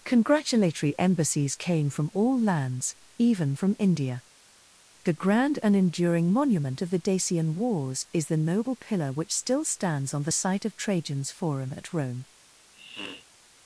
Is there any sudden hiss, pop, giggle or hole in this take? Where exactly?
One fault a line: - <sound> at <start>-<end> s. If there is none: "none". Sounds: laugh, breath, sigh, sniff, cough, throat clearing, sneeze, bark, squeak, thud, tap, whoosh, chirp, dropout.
- sniff at 12.7-13.3 s